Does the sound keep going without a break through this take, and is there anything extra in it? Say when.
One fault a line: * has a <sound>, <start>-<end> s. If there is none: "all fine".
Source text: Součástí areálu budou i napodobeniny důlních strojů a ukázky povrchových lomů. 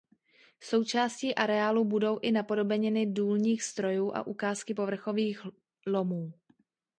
all fine